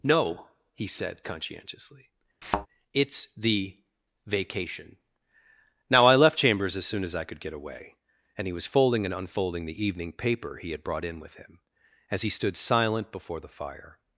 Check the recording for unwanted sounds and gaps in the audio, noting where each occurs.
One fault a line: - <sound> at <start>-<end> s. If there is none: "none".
- thud at 2.4-2.7 s